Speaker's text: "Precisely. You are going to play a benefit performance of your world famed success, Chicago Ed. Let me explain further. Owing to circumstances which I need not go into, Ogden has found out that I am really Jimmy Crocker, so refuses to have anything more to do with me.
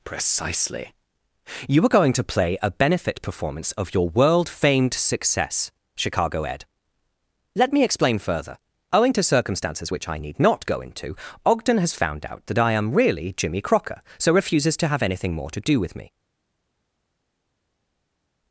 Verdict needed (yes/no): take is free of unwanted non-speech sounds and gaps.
yes